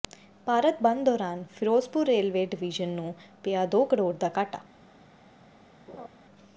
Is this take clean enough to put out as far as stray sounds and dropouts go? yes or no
no